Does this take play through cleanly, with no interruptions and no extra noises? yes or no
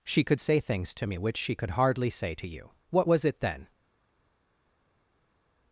yes